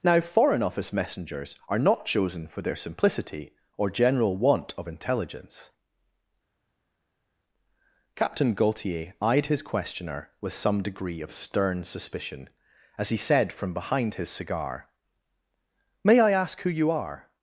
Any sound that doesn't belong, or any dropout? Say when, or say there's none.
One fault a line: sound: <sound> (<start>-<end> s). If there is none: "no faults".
no faults